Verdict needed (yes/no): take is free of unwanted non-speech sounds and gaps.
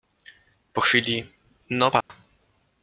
no